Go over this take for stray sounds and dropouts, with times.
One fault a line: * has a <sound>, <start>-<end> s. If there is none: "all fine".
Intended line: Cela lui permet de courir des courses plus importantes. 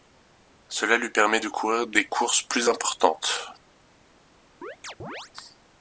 * has a chirp, 4.6-5.3 s